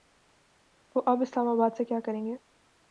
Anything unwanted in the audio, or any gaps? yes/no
no